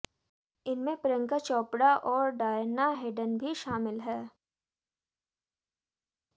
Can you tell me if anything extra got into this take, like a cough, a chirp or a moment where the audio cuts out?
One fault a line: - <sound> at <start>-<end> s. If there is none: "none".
none